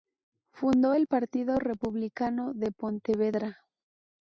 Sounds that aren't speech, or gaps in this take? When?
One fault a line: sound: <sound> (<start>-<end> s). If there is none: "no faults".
no faults